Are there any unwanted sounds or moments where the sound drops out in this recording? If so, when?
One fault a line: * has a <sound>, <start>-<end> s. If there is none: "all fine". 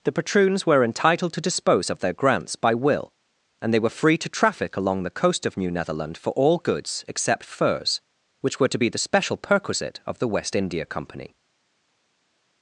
all fine